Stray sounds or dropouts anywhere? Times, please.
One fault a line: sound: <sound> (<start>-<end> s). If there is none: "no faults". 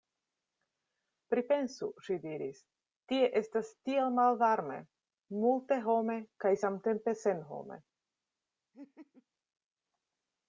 sound: laugh (8.7-9.3 s)